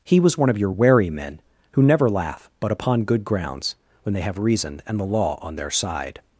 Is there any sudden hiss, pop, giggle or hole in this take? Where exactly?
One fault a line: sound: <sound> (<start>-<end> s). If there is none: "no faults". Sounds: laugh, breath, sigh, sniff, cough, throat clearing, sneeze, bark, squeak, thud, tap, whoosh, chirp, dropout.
no faults